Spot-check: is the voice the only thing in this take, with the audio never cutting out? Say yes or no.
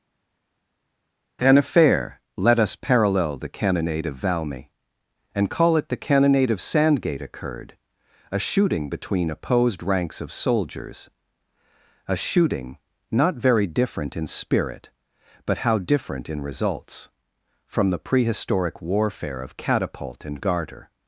yes